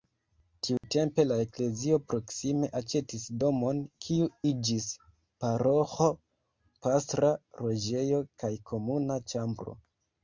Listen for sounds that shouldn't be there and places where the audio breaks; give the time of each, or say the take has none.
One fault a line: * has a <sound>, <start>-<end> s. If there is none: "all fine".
* has a dropout, 0.8-0.8 s